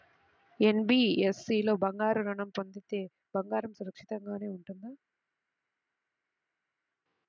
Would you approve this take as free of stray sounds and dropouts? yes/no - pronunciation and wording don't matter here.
yes